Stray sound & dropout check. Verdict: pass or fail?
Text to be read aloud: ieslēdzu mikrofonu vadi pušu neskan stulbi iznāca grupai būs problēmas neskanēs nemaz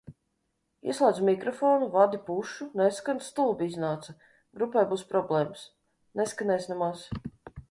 pass